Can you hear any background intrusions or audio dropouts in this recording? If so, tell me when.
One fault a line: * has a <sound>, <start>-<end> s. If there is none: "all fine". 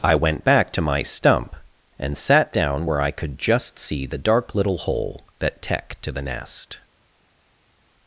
all fine